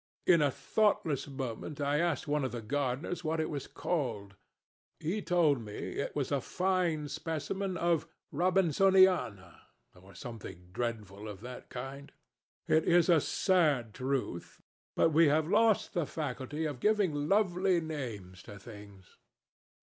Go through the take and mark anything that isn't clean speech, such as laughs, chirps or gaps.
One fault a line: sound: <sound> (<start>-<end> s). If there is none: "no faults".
no faults